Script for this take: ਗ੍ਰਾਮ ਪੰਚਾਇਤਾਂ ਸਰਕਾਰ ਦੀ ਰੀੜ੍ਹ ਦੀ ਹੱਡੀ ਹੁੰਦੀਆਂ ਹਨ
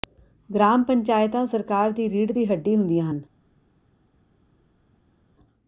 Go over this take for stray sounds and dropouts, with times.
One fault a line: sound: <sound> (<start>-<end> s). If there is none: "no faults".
no faults